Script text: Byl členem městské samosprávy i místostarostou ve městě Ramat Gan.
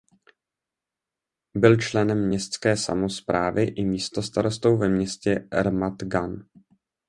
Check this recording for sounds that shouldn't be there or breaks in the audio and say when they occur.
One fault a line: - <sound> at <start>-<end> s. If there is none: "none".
none